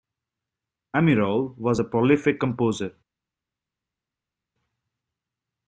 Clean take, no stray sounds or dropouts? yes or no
yes